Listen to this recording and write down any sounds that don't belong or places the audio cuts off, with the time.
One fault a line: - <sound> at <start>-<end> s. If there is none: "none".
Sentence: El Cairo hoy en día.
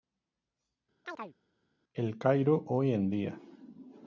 - chirp at 1.0-1.4 s